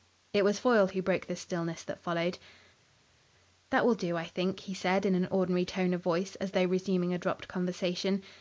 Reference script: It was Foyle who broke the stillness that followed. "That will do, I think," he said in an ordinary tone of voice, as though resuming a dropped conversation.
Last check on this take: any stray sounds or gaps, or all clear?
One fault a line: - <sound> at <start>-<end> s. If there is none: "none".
none